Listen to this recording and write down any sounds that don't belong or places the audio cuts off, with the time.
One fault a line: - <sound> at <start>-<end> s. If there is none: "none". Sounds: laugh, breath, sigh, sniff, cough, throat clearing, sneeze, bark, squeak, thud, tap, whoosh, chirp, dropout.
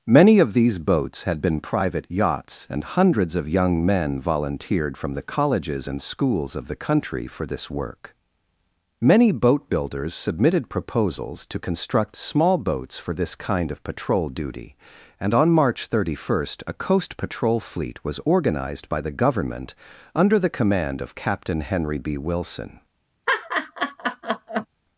- laugh at 23.3-24.7 s